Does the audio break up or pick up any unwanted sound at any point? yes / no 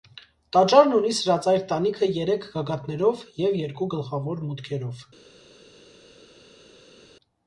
no